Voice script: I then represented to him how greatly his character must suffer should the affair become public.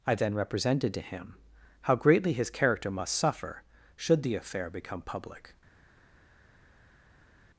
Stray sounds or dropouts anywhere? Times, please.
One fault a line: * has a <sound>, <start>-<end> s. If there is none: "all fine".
all fine